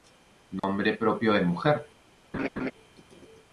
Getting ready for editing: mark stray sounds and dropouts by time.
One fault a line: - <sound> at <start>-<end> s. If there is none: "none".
- dropout at 0.6-0.6 s
- laugh at 2.3-2.7 s